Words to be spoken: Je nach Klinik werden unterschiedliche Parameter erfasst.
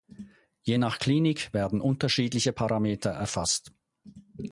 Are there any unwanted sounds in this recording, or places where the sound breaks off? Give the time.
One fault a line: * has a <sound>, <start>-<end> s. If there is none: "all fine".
all fine